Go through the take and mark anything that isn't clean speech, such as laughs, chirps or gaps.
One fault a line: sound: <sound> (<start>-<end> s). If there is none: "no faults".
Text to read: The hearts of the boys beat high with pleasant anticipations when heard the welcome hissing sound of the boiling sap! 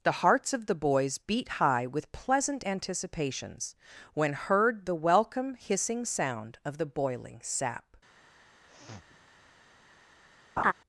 sound: sniff (8.7-9.2 s)
sound: laugh (10.6-10.7 s)